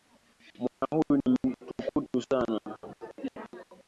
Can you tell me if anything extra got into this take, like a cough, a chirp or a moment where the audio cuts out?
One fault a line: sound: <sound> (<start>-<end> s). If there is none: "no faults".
sound: dropout (0.7-0.8 s)